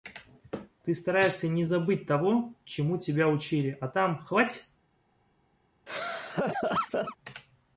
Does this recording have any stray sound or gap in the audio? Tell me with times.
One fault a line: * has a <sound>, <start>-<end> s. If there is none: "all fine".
* has a laugh, 5.9-7.2 s